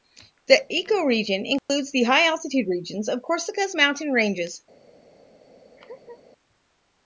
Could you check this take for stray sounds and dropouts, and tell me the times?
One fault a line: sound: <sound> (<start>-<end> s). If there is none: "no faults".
sound: dropout (1.6-1.7 s)
sound: laugh (5.8-6.2 s)